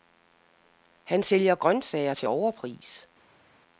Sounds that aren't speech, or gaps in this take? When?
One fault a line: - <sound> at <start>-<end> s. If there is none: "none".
none